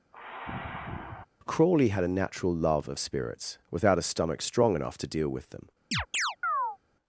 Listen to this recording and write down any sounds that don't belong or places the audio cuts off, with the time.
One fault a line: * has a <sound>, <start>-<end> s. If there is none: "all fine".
* has a sigh, 0.1-1.3 s
* has a chirp, 5.9-6.8 s